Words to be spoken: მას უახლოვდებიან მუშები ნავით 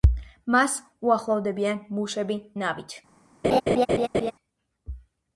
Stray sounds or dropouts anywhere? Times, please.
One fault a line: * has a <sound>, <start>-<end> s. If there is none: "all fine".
* has a laugh, 3.4-4.3 s